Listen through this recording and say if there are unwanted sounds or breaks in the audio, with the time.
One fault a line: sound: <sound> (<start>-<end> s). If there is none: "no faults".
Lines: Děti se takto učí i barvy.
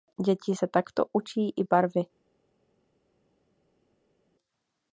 no faults